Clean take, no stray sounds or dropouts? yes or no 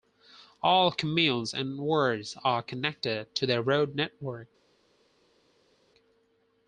yes